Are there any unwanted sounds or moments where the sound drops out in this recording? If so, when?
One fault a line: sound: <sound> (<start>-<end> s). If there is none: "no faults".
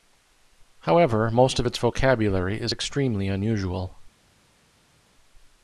no faults